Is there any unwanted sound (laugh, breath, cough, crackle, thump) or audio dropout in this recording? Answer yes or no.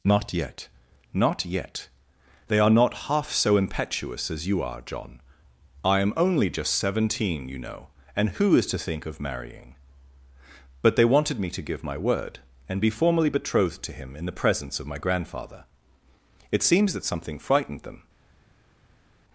no